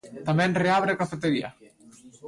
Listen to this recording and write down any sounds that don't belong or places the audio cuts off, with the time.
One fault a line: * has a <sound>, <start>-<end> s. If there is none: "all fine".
all fine